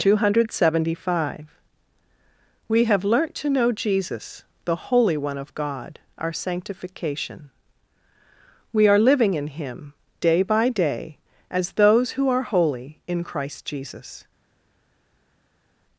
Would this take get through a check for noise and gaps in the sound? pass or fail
pass